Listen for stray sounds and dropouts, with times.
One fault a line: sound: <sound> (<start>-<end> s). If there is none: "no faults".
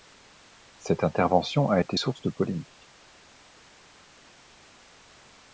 no faults